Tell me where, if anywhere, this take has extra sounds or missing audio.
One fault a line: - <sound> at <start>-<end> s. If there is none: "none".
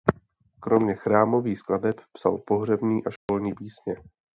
- dropout at 3.2-3.3 s